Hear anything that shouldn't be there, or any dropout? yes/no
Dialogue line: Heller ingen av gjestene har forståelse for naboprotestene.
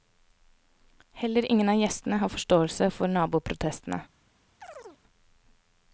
yes